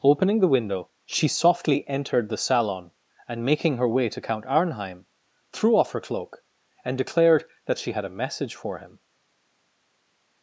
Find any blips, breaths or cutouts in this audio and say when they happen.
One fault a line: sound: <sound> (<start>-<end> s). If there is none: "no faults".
no faults